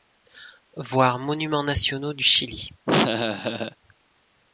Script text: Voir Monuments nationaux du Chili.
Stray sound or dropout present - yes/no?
yes